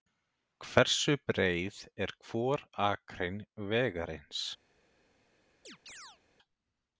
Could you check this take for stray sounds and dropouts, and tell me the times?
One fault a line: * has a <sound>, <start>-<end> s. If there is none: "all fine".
* has a chirp, 5.6-6.2 s